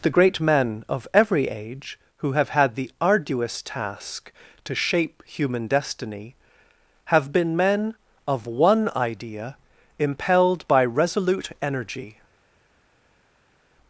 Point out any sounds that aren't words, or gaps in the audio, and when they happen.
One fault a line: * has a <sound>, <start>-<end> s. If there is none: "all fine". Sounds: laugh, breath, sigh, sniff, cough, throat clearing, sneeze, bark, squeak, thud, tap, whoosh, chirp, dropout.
all fine